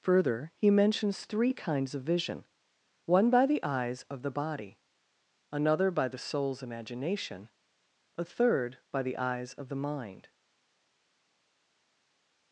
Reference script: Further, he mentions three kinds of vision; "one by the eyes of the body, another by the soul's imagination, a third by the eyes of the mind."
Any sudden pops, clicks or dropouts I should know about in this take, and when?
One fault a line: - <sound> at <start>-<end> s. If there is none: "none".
none